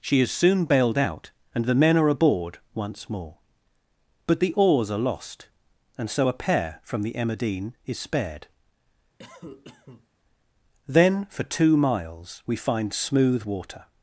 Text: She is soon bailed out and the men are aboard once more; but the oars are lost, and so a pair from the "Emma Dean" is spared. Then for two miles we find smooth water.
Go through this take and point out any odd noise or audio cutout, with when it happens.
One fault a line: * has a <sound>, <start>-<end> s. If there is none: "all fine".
* has a cough, 9.2-10.1 s